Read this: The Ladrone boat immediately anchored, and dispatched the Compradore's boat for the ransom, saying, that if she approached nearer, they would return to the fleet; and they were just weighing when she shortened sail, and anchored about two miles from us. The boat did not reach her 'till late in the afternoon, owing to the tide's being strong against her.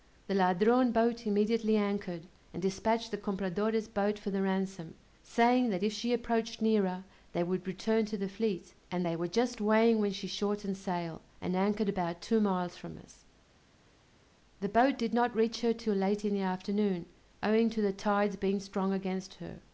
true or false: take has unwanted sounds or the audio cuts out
false